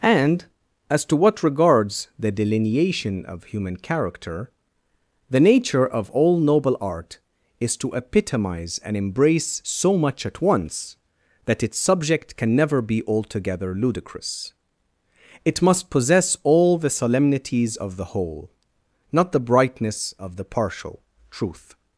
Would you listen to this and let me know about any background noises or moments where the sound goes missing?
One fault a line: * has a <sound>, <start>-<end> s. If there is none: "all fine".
all fine